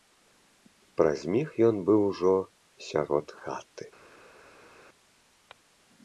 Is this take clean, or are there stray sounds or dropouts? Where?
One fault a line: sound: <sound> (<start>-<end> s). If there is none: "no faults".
no faults